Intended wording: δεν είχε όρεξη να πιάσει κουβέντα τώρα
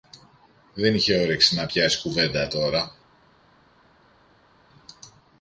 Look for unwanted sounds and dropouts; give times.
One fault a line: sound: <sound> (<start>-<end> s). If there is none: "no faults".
no faults